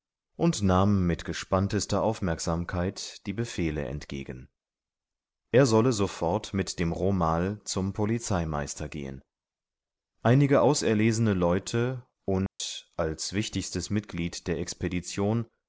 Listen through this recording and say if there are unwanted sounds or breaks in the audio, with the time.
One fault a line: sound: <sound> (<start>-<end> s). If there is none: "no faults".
sound: dropout (12.5-12.6 s)